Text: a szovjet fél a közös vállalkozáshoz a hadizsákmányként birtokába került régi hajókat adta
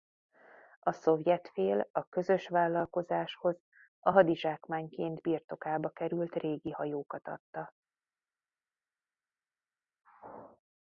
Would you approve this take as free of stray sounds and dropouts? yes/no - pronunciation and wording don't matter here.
yes